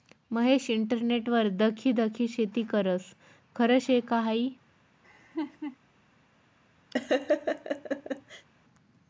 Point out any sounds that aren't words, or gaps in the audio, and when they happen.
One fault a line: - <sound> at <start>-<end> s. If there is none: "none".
- laugh at 5.0-5.8 s
- laugh at 6.9-8.5 s